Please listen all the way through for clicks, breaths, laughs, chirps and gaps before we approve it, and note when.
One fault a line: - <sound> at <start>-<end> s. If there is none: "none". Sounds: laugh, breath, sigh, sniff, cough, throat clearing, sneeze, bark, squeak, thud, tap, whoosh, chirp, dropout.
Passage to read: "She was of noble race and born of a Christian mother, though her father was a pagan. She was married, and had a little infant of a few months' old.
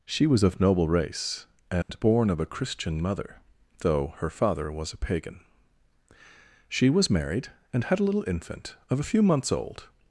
- dropout at 1.8-1.9 s